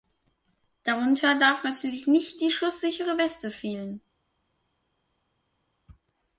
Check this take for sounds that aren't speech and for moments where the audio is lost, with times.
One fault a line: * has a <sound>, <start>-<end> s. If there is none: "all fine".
all fine